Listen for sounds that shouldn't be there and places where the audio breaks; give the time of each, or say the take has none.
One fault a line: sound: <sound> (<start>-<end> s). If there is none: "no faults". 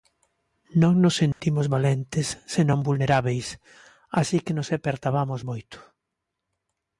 sound: dropout (1.3-1.4 s)